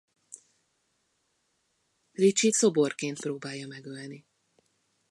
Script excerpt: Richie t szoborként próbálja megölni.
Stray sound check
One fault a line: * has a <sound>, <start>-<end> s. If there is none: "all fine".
all fine